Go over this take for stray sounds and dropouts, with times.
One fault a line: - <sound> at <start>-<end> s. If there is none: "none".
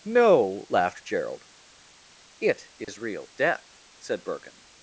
- dropout at 2.8-2.9 s